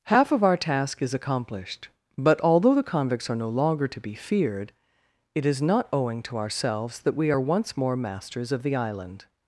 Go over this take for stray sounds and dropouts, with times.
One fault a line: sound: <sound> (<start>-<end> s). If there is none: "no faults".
no faults